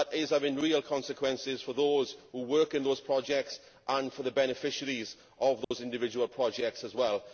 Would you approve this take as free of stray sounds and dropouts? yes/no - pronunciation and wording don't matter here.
no